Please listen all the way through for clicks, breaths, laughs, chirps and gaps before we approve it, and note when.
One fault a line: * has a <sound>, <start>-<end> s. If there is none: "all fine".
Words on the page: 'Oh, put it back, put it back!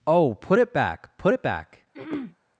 * has a throat clearing, 1.9-2.4 s